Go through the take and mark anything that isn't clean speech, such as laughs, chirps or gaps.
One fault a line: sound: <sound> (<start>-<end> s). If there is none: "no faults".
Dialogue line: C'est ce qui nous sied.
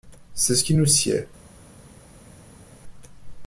no faults